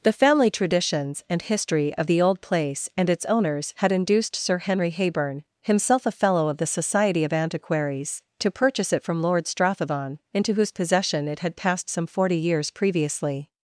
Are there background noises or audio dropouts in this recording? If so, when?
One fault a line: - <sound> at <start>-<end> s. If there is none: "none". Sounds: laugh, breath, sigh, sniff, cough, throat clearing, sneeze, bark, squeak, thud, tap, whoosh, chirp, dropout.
none